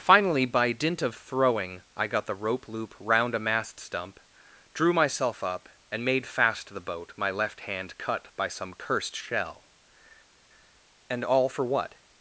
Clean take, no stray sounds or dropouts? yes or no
yes